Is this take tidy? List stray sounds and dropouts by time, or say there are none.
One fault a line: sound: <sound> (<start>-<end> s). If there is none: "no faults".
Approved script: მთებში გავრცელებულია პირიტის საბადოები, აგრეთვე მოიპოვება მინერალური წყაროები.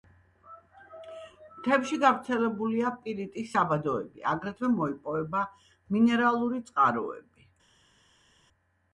no faults